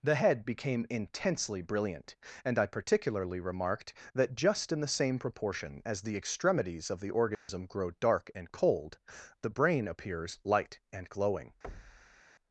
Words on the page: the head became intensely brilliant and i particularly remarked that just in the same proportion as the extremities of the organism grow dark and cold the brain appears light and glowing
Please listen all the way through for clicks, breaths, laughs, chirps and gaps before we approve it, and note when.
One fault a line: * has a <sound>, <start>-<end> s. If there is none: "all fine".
* has a dropout, 7.3-7.5 s
* has a thud, 11.6-12.2 s